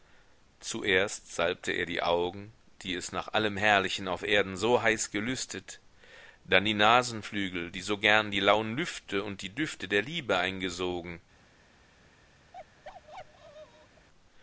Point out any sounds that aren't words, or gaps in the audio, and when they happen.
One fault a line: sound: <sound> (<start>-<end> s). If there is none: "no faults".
sound: bark (12.5-14.1 s)